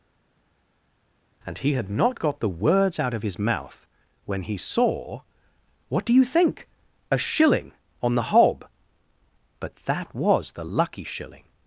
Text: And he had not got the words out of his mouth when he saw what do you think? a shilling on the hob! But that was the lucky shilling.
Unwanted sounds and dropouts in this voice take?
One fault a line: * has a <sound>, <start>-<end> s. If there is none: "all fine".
all fine